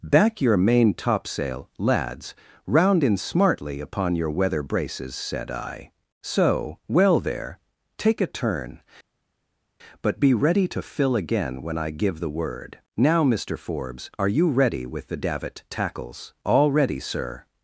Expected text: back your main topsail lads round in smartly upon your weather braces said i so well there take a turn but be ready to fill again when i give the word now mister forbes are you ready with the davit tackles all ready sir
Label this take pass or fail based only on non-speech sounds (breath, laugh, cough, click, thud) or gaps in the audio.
pass